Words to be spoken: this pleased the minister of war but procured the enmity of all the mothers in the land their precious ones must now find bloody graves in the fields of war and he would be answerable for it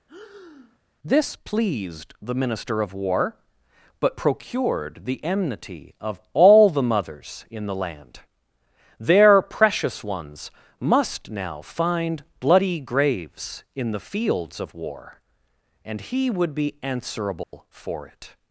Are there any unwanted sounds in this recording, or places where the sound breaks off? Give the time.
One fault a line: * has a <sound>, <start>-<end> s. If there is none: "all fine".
* has a breath, 0.1-0.8 s
* has a dropout, 17.4-17.5 s